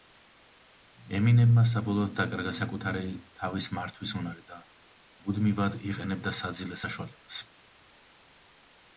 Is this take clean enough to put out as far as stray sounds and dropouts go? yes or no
yes